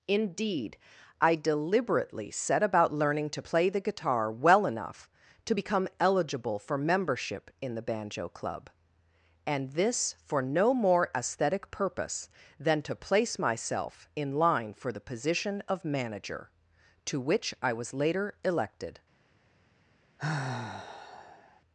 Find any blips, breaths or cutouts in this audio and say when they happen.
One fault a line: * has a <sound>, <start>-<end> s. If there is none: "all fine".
* has a sigh, 20.2-21.6 s